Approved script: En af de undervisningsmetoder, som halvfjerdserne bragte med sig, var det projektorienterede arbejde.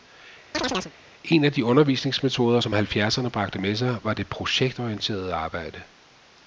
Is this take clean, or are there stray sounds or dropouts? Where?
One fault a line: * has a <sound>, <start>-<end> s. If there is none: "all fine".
* has a chirp, 0.5-0.9 s